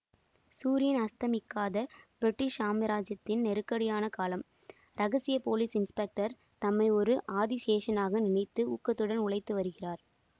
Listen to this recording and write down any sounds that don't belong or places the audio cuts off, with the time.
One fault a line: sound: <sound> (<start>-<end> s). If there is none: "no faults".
no faults